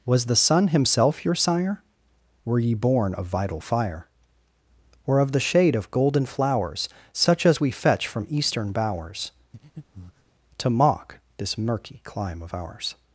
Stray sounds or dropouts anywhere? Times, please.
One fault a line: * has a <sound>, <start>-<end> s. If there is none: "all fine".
* has a breath, 9.5-10.3 s